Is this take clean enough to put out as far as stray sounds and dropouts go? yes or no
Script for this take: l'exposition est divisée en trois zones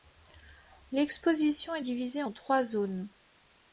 yes